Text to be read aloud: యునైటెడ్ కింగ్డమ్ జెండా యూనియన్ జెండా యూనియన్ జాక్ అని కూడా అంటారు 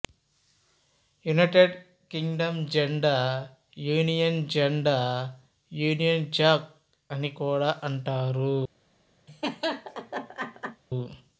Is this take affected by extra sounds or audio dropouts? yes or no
yes